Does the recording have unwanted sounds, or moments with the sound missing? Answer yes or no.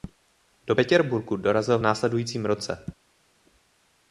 no